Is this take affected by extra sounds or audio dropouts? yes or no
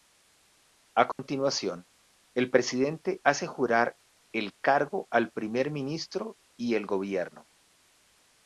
yes